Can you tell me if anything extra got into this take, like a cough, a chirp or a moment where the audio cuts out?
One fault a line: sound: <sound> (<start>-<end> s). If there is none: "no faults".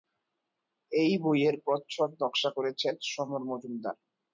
no faults